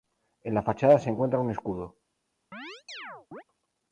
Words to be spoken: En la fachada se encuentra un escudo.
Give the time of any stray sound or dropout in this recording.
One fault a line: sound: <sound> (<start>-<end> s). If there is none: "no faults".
sound: chirp (2.5-3.4 s)